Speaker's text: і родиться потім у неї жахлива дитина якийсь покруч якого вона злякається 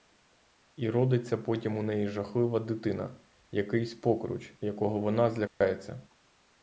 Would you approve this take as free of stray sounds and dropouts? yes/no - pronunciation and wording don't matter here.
no